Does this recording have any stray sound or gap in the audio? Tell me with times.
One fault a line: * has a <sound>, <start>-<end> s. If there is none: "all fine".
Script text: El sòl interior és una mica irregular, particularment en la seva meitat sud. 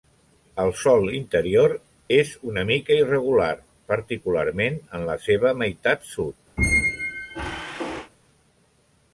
* has a squeak, 6.6-8.1 s